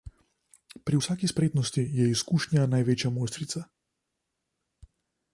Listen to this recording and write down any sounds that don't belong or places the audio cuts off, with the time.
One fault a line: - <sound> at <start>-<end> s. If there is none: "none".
none